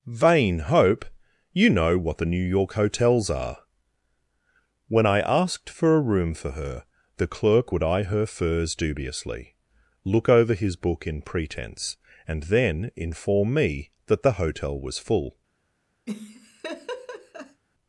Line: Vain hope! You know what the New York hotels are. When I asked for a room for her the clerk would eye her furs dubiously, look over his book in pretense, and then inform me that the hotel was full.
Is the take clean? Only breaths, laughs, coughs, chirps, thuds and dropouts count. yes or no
no